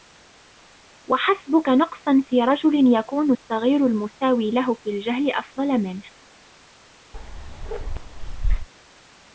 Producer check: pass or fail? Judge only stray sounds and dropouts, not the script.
fail